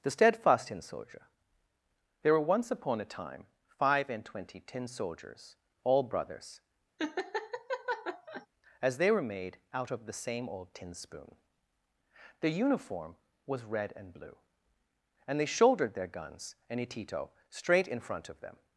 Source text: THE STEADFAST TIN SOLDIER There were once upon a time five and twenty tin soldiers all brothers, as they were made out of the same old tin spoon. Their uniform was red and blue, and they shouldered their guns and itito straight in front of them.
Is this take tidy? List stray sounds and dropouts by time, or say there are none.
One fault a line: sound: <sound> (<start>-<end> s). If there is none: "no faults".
sound: laugh (7.0-8.5 s)